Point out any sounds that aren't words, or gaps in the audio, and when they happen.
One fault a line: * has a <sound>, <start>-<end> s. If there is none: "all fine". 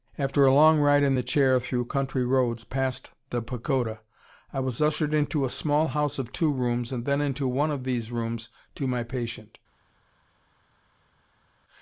all fine